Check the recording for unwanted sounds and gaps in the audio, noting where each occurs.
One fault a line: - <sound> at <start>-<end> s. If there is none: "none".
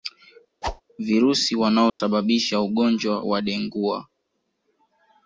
- whoosh at 0.6-0.8 s
- dropout at 1.9-2.0 s